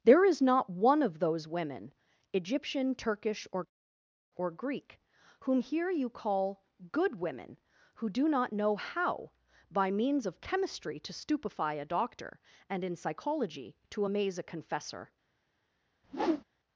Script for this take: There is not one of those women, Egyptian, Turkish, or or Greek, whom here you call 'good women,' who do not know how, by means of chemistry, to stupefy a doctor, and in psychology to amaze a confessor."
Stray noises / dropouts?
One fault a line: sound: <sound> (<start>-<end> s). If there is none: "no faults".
sound: whoosh (16.0-16.4 s)